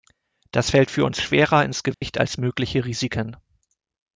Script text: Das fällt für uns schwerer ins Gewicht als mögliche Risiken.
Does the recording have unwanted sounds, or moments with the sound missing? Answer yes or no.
yes